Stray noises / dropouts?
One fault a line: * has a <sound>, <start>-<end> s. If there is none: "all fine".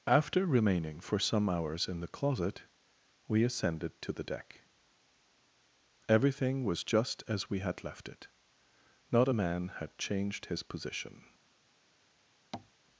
* has a tap, 12.5-12.7 s